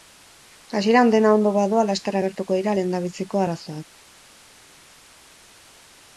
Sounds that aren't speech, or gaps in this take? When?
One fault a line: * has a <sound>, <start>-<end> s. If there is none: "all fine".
all fine